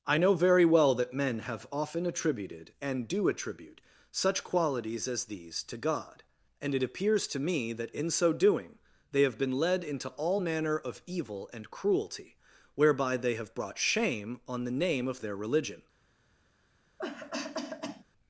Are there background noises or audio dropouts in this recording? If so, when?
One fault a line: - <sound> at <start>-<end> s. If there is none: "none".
- cough at 17.0-18.0 s